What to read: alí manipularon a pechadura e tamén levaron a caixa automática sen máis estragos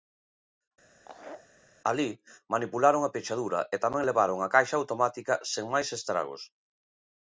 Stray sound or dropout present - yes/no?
yes